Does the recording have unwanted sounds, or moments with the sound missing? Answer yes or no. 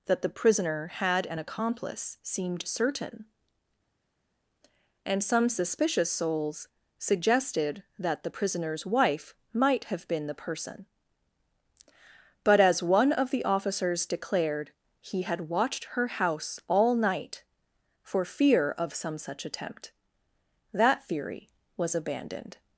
no